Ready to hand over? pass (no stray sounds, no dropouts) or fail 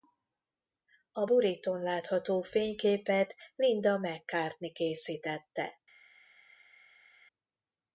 pass